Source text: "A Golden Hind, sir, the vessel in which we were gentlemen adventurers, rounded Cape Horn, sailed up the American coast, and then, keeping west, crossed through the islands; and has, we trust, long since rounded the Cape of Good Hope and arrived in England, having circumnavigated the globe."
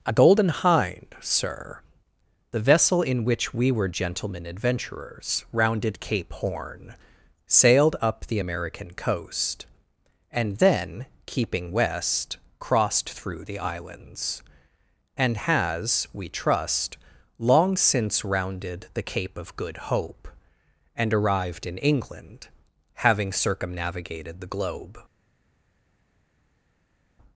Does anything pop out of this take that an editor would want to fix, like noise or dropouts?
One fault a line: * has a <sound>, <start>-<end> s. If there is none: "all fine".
all fine